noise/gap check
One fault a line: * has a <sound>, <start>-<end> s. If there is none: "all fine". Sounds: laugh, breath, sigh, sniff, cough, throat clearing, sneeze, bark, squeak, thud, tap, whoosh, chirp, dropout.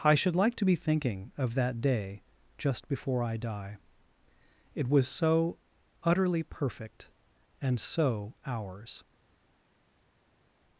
all fine